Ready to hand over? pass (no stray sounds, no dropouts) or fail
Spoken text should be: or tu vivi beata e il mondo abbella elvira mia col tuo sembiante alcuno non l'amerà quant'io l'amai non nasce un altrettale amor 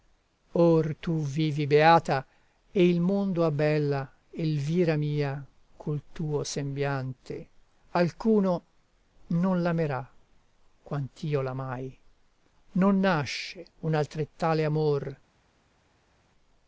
pass